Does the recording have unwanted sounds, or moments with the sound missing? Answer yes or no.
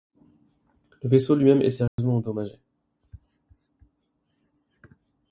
yes